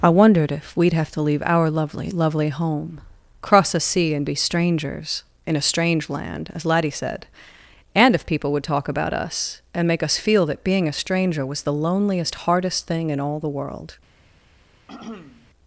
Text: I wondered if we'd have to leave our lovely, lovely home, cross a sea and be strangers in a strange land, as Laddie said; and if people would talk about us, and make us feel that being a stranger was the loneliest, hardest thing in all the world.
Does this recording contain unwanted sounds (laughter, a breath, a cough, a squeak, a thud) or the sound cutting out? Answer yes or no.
yes